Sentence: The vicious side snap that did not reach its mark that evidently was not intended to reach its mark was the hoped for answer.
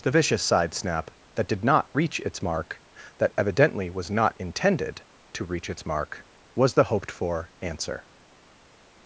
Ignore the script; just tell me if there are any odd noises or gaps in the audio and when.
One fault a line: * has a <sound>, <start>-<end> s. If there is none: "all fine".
all fine